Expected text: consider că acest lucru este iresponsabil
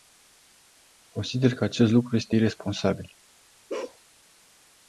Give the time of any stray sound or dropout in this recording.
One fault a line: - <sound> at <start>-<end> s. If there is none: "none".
- bark at 3.7-4.0 s